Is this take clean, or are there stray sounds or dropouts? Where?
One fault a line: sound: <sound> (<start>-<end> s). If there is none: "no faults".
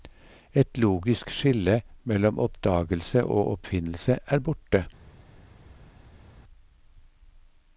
no faults